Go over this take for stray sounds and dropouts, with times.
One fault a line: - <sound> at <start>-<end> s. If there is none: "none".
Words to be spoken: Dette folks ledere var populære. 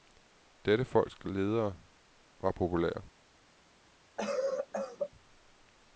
- cough at 4.2-5.1 s